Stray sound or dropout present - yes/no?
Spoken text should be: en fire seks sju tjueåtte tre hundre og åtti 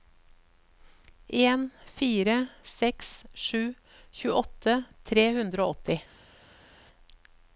no